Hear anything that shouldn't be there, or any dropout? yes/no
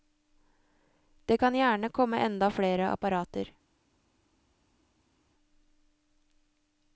no